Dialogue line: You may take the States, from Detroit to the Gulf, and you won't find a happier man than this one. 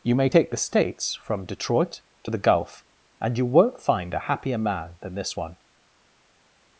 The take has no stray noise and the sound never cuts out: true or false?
true